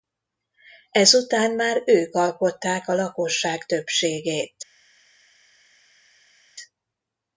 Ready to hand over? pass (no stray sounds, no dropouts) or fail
pass